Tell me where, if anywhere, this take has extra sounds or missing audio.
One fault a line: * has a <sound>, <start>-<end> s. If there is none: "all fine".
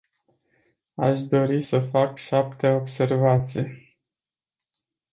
all fine